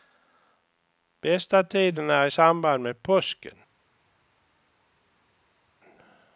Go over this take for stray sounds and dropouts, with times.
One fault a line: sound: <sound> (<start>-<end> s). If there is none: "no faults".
no faults